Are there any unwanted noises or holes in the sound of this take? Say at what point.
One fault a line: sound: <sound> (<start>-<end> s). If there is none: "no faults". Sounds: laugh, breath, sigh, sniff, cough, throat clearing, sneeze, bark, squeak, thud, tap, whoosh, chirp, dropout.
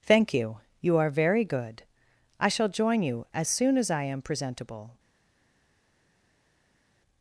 no faults